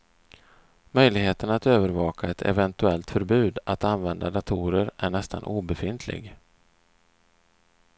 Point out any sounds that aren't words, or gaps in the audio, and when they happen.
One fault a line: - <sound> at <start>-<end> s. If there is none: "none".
none